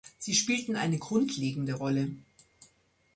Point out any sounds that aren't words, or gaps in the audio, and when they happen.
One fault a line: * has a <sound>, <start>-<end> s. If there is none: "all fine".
all fine